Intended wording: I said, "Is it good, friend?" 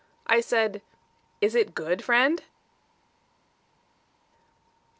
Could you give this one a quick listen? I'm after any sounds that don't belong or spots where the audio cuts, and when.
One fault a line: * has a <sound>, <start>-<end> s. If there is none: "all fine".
all fine